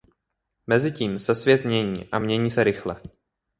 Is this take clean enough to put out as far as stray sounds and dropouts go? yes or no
yes